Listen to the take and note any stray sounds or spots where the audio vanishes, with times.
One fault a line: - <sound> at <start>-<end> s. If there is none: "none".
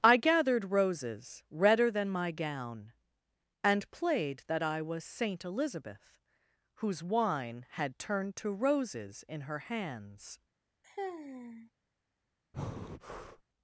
- sigh at 10.8-11.7 s
- breath at 12.5-13.4 s